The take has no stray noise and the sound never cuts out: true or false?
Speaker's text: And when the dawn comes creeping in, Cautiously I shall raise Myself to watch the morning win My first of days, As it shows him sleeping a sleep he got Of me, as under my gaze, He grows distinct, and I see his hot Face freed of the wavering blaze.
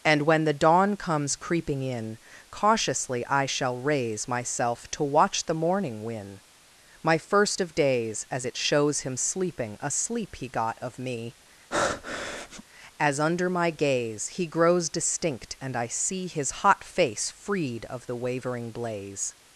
false